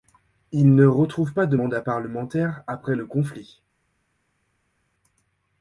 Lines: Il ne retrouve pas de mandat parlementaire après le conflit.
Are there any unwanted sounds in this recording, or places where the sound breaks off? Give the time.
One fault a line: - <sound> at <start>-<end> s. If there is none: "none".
none